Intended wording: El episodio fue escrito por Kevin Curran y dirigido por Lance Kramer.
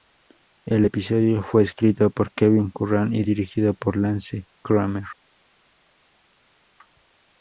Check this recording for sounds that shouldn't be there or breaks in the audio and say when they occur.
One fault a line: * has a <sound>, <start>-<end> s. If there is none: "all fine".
all fine